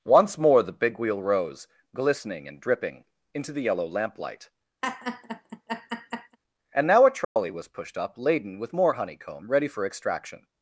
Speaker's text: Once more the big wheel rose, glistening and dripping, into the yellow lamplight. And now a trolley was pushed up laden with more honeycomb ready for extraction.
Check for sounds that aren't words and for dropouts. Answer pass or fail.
fail